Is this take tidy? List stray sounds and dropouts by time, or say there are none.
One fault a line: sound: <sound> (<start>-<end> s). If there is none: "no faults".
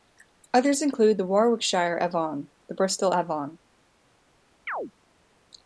sound: chirp (4.7-4.9 s)